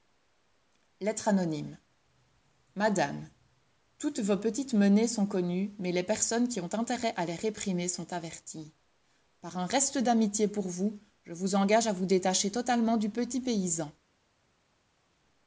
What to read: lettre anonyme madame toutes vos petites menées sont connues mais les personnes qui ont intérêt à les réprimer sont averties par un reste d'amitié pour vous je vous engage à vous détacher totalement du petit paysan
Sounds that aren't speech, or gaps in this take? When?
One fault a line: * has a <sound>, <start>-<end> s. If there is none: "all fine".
all fine